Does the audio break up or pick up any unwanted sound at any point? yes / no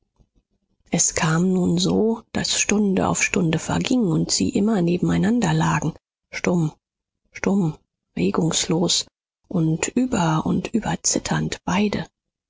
no